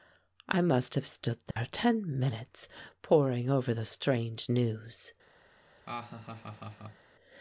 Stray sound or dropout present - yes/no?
yes